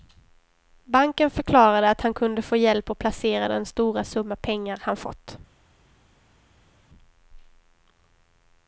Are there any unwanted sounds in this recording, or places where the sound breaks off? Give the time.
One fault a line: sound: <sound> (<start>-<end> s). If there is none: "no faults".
no faults